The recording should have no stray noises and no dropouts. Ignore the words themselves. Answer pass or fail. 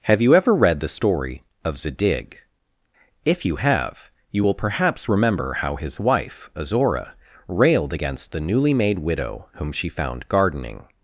pass